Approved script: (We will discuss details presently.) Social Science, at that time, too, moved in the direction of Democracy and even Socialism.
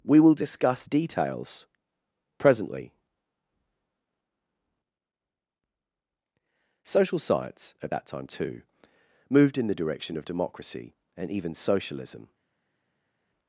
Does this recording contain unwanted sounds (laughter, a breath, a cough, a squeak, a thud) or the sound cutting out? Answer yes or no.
no